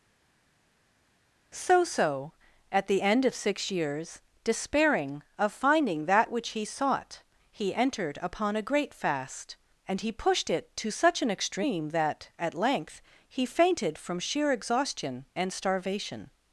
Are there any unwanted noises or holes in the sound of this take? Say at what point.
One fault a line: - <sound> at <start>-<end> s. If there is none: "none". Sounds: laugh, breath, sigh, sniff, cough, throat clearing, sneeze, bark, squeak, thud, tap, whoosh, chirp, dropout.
none